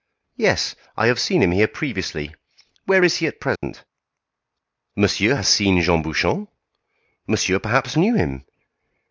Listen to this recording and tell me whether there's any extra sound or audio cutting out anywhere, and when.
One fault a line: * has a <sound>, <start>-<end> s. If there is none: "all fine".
* has a dropout, 3.6-3.6 s